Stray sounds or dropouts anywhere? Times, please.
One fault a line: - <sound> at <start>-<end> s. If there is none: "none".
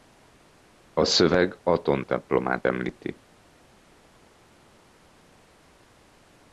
none